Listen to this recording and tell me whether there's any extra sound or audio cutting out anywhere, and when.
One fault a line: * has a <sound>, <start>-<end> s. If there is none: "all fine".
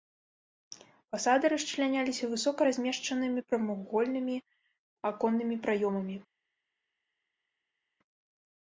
all fine